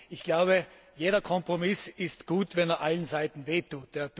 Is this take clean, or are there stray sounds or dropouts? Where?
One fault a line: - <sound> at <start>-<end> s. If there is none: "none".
none